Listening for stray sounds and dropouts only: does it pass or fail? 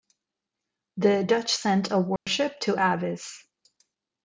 fail